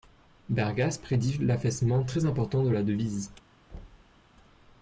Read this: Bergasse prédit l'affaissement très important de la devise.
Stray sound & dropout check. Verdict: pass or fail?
fail